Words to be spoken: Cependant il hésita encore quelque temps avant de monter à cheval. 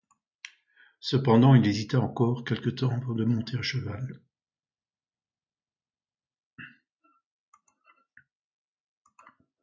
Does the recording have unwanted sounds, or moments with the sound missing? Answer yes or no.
no